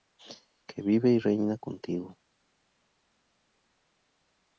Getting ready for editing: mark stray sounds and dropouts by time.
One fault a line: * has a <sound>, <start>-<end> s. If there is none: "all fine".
all fine